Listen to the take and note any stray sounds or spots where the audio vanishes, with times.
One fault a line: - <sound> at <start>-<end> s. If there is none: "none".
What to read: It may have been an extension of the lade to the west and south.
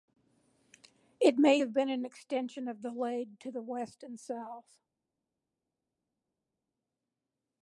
none